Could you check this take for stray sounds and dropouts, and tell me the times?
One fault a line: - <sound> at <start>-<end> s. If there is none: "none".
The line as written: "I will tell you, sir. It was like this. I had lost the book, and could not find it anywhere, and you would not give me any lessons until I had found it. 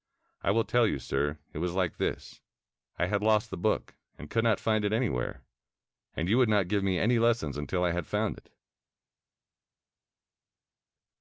none